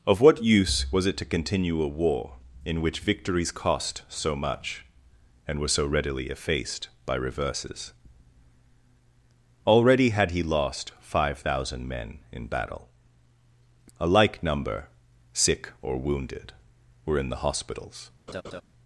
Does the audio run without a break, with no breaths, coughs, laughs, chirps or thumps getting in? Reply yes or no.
no